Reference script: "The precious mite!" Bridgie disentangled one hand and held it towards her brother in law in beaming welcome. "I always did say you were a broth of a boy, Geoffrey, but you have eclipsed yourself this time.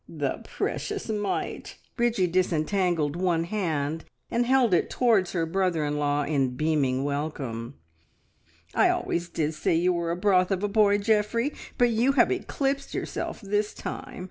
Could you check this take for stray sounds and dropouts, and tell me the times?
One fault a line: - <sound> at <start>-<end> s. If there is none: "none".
none